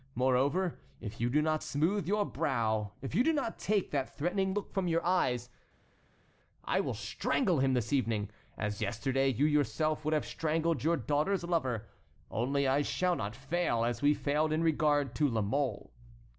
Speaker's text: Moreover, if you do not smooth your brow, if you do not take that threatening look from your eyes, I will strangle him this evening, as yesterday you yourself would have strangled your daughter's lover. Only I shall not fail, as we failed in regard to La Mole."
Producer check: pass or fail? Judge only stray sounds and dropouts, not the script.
pass